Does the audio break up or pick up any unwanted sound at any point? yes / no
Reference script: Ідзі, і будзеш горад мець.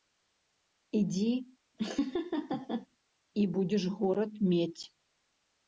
yes